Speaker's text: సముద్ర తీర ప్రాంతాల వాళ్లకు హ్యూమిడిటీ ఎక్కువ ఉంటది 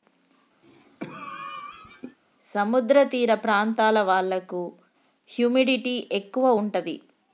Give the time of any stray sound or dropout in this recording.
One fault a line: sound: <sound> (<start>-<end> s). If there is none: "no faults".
sound: cough (0.6-2.2 s)